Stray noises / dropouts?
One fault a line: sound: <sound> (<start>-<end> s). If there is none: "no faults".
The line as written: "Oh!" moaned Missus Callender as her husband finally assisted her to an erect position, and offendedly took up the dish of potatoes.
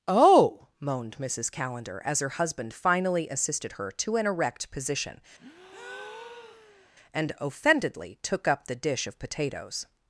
sound: breath (5.4-6.9 s)